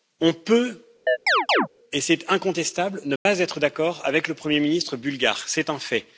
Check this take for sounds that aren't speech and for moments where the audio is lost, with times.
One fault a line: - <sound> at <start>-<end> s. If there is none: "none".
- chirp at 1.1-1.7 s
- dropout at 3.2-3.3 s